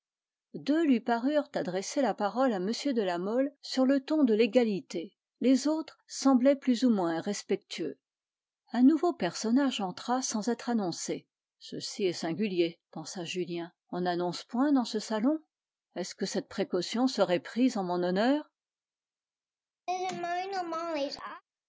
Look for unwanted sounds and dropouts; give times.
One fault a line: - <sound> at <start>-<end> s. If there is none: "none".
- laugh at 19.9-21.4 s